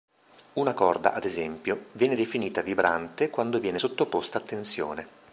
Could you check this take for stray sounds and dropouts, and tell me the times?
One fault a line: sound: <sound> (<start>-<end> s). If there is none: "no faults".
no faults